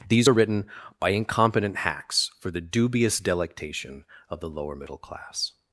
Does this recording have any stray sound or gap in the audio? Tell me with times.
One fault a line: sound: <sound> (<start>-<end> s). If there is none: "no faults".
no faults